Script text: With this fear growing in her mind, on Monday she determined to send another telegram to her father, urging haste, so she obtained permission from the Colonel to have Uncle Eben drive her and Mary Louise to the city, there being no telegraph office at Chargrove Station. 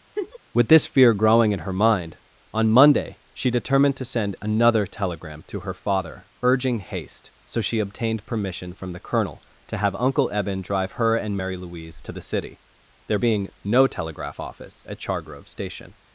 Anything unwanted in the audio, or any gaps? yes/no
yes